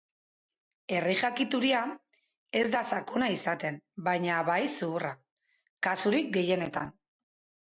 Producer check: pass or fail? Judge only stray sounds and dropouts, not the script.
pass